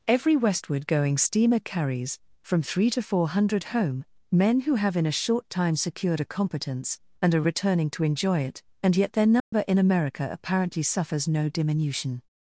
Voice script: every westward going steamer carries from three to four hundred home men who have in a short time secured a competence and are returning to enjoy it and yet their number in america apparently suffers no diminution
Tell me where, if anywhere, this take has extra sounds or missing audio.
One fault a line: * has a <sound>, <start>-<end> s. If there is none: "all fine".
* has a dropout, 9.4-9.5 s